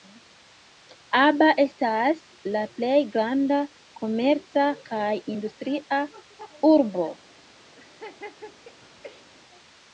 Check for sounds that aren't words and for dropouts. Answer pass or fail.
fail